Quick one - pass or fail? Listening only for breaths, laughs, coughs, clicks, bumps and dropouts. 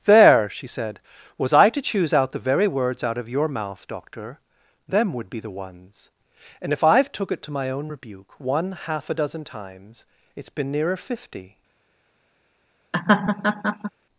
fail